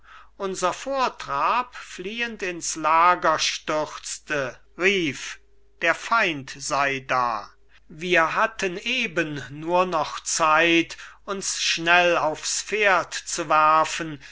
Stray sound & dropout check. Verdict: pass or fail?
pass